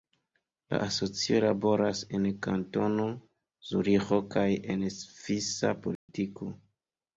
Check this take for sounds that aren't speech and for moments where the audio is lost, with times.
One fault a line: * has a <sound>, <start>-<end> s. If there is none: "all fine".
* has a dropout, 6.0-6.1 s